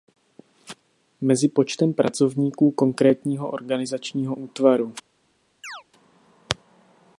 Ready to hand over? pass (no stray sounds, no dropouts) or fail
fail